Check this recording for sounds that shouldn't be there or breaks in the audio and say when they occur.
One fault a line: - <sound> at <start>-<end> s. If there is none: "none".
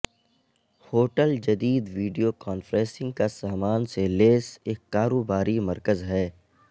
none